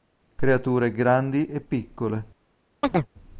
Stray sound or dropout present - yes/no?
yes